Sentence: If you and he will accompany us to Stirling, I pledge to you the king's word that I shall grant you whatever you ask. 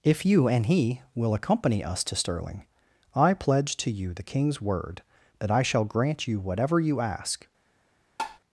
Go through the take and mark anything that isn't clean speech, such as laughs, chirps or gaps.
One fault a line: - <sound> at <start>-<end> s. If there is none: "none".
- tap at 8.2-8.4 s